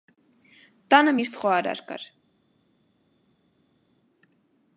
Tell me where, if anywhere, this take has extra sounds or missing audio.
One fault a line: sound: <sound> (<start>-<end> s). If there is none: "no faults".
no faults